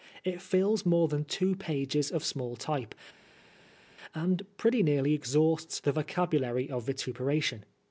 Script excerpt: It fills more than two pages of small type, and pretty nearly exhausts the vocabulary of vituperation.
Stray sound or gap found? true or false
false